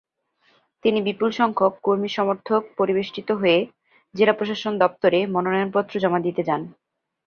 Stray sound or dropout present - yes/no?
no